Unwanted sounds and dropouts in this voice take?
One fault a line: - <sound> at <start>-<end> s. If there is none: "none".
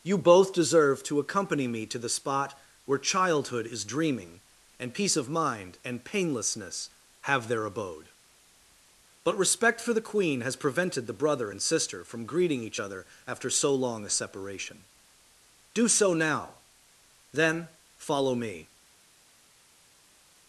none